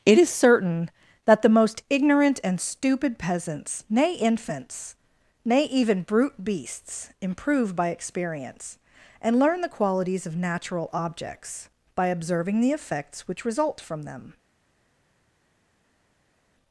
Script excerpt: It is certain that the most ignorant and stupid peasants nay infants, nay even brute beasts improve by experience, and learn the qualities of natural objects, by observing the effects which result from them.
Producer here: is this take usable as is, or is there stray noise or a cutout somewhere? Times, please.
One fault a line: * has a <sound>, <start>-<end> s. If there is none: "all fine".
all fine